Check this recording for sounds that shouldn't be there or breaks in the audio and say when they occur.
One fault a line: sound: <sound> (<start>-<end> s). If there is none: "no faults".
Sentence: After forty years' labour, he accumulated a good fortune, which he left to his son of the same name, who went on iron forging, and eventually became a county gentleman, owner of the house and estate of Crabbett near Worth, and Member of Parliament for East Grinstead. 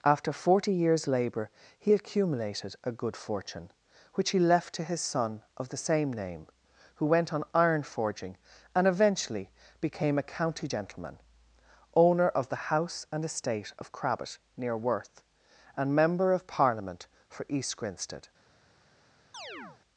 sound: chirp (19.3-19.8 s)